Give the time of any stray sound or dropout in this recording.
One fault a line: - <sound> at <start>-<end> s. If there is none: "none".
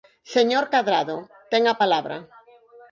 none